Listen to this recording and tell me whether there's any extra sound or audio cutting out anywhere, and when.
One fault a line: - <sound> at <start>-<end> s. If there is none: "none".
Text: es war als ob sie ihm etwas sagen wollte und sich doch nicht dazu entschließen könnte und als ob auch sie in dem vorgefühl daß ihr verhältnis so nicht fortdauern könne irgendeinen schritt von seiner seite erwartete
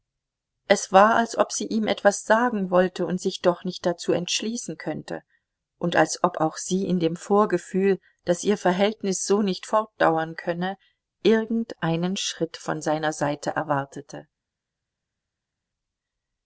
none